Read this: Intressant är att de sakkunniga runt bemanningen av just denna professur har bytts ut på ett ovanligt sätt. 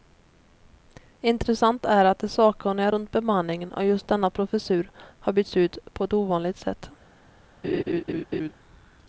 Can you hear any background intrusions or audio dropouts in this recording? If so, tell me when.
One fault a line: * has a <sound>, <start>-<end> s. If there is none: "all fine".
* has a laugh, 7.6-8.5 s